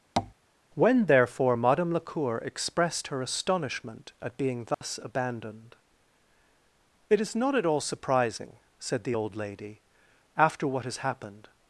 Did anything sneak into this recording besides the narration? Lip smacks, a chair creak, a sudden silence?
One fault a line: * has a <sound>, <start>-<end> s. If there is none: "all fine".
* has a tap, 0.2-0.3 s
* has a dropout, 4.7-4.8 s